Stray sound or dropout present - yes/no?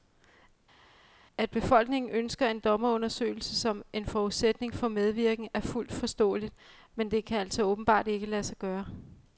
no